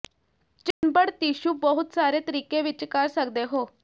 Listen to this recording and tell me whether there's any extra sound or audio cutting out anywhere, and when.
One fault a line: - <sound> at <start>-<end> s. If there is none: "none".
- dropout at 0.7-0.8 s